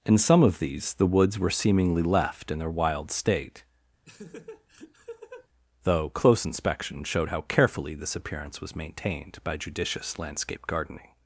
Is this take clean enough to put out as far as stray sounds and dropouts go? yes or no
no